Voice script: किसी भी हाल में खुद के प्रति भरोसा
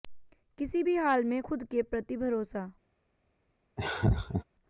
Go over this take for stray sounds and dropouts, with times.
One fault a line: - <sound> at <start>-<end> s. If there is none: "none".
- laugh at 3.8-4.4 s